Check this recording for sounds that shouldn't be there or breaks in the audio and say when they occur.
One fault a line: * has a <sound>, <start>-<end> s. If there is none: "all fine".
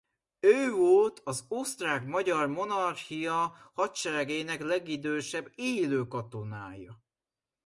all fine